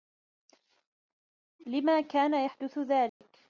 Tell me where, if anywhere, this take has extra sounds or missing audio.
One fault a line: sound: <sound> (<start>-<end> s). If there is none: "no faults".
sound: dropout (3.1-3.2 s)